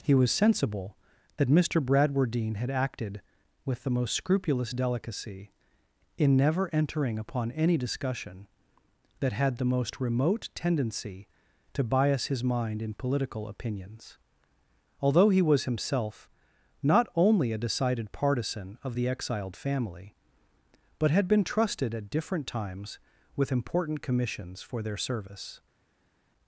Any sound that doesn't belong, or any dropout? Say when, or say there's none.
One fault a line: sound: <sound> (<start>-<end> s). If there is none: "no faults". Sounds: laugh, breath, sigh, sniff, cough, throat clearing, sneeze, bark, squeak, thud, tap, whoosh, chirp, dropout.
no faults